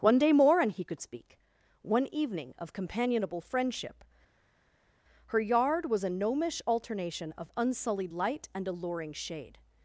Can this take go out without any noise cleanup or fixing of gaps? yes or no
yes